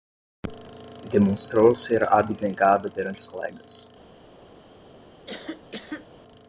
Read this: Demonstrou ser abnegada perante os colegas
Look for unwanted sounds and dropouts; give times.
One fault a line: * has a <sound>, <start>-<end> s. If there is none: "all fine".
* has a cough, 5.3-6.1 s